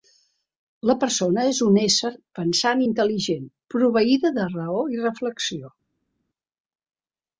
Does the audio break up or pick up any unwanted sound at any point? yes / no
no